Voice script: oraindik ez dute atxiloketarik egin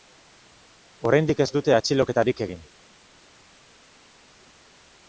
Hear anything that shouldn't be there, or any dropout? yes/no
no